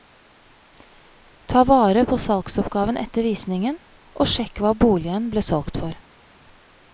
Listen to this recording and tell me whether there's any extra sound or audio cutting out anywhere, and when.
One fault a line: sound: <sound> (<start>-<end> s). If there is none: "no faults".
no faults